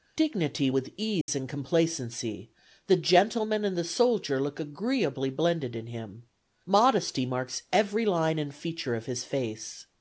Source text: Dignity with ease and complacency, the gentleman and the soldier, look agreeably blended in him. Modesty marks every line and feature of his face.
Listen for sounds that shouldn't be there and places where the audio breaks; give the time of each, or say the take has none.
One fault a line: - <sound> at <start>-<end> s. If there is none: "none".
- dropout at 1.2-1.3 s